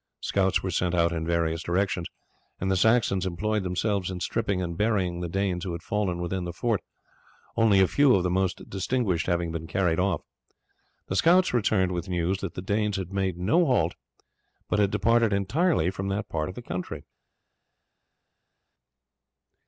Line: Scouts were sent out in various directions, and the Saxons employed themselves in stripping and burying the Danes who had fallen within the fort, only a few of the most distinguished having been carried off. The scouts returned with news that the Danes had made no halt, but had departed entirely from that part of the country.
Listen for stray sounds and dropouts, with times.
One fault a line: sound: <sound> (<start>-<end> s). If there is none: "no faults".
no faults